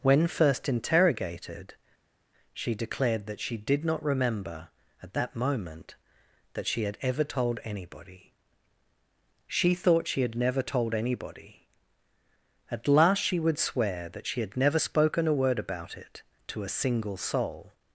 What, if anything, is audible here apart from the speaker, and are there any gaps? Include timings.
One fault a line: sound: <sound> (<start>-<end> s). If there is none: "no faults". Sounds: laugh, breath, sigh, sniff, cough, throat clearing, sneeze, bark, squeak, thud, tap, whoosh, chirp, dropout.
no faults